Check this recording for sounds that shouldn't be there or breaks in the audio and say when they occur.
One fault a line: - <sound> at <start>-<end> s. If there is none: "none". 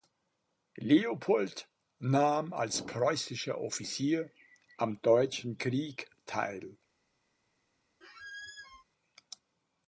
- squeak at 8.0-8.8 s